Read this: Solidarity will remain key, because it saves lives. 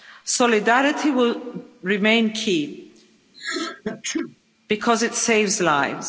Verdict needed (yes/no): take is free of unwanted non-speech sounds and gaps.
no